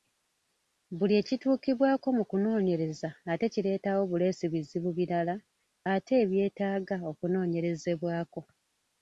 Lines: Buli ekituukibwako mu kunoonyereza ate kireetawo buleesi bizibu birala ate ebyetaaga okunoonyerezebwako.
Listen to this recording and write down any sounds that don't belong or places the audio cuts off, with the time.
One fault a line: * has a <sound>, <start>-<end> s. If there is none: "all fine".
all fine